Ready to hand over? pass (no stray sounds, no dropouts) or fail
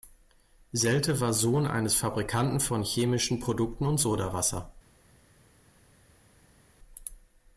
pass